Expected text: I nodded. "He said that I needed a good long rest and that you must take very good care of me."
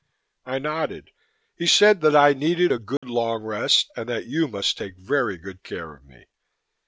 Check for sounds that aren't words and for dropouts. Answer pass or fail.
fail